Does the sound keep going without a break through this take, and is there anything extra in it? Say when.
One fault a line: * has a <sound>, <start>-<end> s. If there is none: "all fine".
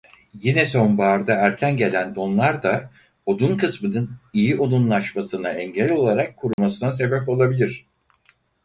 * has a dropout, 6.5-6.6 s